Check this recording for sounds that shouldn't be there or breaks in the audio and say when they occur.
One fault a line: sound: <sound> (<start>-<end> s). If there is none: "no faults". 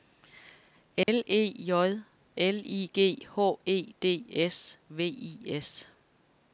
sound: dropout (1.0-1.1 s)